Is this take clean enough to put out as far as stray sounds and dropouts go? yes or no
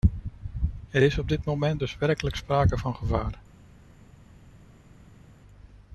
yes